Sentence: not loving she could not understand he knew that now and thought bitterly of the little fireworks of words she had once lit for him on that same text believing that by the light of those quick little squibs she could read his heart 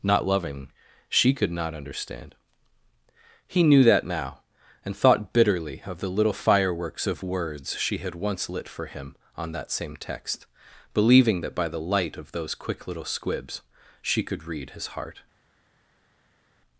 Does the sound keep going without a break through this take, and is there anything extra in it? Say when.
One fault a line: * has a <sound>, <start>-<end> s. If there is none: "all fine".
all fine